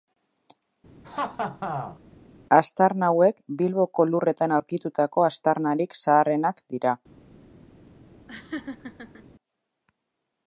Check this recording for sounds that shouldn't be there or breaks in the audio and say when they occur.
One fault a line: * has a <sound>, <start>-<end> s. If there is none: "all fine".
* has a laugh, 1.0-2.0 s
* has a laugh, 8.3-9.2 s